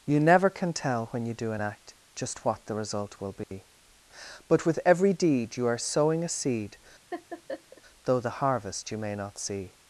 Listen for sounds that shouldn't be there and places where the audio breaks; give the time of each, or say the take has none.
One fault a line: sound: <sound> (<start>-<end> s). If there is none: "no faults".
sound: dropout (3.4-3.5 s)
sound: laugh (7.1-7.8 s)